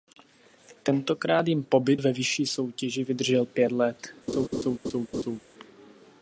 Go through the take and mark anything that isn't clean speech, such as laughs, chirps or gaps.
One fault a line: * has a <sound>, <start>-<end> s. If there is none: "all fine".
* has a laugh, 4.3-5.4 s